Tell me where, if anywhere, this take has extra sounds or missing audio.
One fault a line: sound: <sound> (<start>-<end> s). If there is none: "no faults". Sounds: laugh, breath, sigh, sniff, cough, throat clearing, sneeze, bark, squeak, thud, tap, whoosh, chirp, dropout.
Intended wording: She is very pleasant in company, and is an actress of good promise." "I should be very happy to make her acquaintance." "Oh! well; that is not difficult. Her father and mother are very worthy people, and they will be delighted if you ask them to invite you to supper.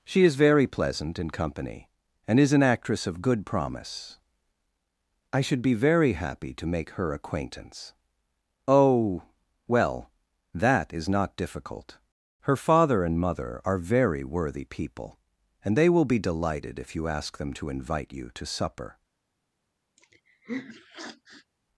sound: sniff (20.0-21.5 s)